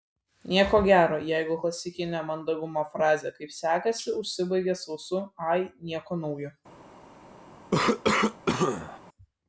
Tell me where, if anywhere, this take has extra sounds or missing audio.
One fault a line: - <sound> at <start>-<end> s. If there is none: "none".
- cough at 7.7-9.0 s